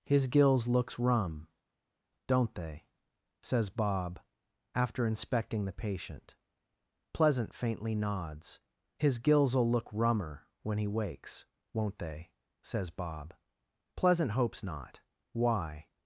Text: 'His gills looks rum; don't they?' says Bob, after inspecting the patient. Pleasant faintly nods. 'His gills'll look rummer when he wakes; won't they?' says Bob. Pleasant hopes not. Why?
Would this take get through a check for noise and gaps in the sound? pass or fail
pass